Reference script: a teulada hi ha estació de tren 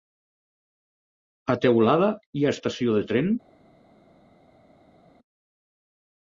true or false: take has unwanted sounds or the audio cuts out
false